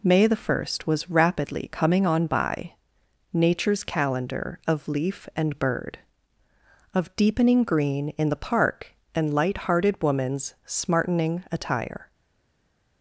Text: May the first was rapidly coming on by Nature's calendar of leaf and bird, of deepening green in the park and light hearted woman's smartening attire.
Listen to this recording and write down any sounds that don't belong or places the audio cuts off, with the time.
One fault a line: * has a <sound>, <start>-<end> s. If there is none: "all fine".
all fine